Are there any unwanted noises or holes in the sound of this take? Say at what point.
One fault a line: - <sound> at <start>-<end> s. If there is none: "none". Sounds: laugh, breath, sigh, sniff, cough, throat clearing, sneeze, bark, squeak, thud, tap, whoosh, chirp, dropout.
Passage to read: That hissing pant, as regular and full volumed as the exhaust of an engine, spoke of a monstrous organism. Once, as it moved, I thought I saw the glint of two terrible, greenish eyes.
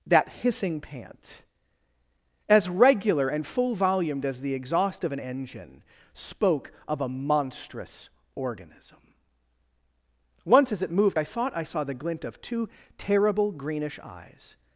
none